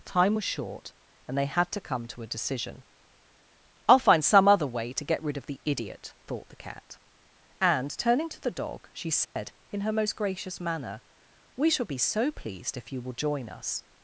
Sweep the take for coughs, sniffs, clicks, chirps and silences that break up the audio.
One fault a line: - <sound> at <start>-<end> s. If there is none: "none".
- dropout at 9.2-9.4 s